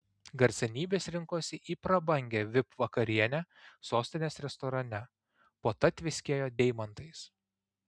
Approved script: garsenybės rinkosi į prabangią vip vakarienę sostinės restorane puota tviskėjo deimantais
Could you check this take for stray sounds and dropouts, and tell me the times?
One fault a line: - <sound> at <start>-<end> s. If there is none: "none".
none